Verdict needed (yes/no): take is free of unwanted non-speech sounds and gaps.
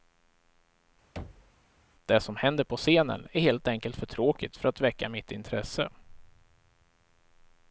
no